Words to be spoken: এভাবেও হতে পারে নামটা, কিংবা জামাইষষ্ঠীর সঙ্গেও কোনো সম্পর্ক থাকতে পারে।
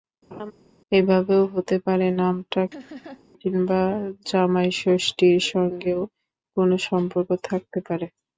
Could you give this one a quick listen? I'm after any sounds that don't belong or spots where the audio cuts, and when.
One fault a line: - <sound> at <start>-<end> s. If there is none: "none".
- laugh at 0.3-0.5 s
- laugh at 2.7-3.3 s